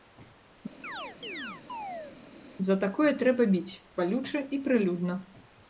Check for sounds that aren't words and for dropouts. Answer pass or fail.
fail